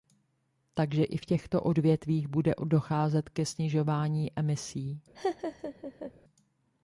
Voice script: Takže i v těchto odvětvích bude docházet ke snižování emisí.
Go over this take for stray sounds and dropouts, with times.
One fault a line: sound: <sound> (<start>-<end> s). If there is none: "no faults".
sound: laugh (5.1-6.1 s)